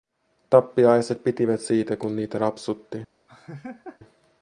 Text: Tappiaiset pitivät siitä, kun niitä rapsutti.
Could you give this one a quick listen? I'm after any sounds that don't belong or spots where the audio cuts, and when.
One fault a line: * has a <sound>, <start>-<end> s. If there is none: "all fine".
* has a laugh, 3.3-4.0 s